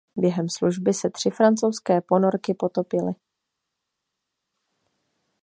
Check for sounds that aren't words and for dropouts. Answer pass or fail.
pass